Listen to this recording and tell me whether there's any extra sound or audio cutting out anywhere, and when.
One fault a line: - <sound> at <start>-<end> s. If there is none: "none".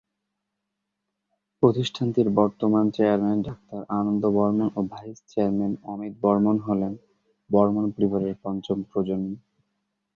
none